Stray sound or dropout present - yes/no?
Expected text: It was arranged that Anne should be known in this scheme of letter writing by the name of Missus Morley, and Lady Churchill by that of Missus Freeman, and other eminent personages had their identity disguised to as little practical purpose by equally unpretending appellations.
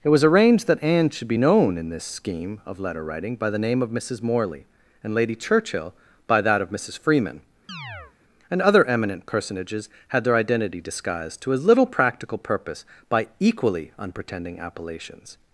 yes